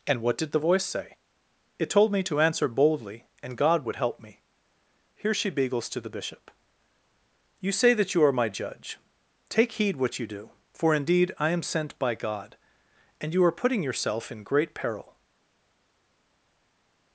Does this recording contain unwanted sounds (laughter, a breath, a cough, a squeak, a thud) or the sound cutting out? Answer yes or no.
no